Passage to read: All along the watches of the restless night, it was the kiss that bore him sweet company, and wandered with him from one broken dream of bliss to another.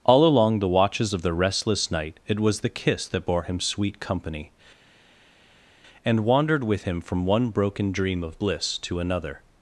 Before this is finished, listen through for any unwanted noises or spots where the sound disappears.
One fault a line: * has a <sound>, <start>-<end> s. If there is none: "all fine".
all fine